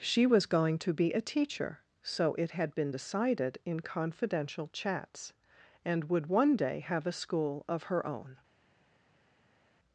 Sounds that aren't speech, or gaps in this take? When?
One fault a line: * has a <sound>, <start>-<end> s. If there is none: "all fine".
all fine